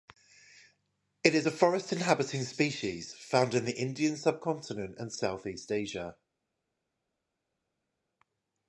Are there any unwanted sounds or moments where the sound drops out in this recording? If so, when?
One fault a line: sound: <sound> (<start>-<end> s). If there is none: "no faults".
no faults